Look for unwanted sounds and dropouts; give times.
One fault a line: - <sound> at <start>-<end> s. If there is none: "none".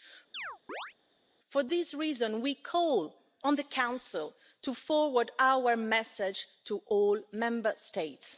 - chirp at 0.3-0.9 s